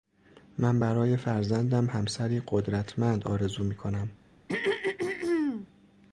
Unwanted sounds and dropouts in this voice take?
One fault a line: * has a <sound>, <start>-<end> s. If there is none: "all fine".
* has a throat clearing, 4.5-5.7 s